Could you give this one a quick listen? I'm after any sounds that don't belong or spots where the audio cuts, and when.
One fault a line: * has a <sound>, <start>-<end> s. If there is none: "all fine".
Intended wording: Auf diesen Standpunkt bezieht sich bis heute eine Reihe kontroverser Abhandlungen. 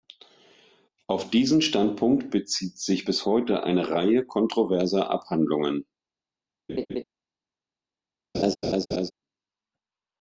* has a laugh, 6.7-7.0 s
* has a laugh, 8.3-9.1 s